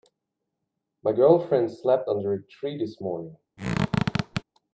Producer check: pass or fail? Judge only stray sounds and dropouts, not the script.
fail